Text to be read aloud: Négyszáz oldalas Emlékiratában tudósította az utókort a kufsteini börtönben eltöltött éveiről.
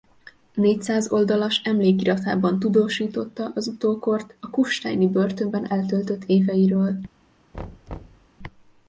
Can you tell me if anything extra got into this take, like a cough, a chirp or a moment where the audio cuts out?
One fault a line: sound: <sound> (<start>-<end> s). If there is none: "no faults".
sound: thud (7.5-8.3 s)